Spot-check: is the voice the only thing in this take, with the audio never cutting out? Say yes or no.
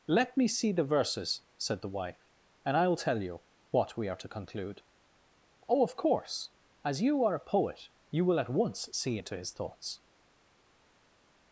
yes